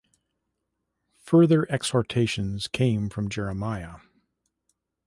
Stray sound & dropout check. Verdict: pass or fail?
pass